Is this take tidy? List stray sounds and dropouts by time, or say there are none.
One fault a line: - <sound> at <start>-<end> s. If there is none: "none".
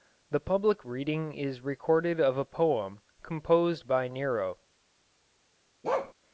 - bark at 5.8-6.1 s